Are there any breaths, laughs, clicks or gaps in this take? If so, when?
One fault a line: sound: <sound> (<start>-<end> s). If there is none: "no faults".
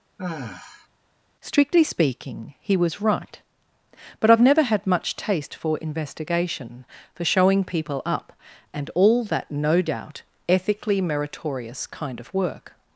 sound: sigh (0.2-0.9 s)